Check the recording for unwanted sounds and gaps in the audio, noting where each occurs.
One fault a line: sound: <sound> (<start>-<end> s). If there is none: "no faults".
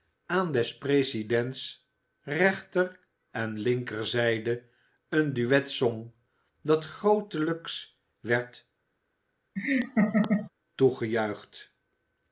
sound: laugh (9.6-10.5 s)